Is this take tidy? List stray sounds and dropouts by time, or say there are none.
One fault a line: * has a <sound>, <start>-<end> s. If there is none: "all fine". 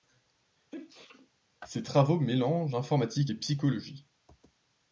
* has a sneeze, 0.6-1.3 s